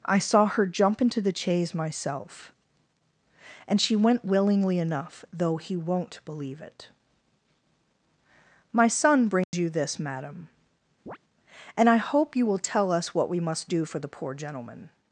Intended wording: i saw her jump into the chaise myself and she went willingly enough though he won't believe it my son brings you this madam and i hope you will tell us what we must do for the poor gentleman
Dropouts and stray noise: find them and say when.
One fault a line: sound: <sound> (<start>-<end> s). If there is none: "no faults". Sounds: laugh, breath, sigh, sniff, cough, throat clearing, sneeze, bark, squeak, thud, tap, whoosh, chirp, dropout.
sound: dropout (9.4-9.5 s)
sound: chirp (11.1-11.2 s)